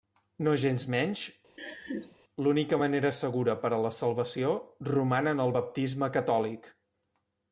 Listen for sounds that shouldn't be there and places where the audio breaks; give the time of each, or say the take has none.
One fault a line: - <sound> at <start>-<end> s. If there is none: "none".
- laugh at 1.6-2.2 s